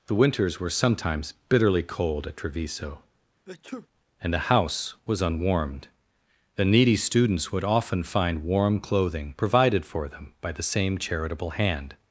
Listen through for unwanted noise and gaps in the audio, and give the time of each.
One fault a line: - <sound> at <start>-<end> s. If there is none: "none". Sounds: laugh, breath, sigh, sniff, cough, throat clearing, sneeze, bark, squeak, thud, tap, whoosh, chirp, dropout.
- sneeze at 3.5-3.9 s